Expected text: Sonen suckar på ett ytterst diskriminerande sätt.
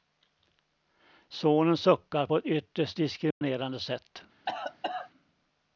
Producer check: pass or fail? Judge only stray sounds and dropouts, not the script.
fail